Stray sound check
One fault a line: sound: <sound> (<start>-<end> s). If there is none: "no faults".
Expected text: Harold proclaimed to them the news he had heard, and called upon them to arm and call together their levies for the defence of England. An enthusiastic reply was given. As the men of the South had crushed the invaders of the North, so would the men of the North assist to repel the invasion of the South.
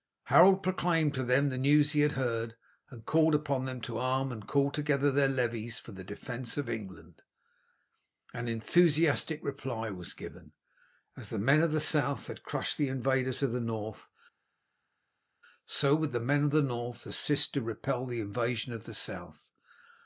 no faults